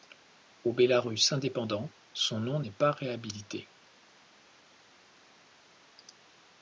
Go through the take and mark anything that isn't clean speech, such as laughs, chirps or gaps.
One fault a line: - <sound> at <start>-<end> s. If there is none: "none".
none